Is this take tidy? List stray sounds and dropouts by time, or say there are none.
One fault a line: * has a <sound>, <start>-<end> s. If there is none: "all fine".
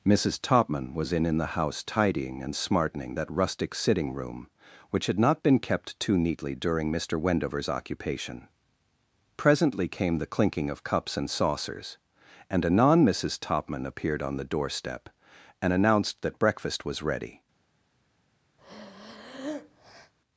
* has a breath, 18.6-20.1 s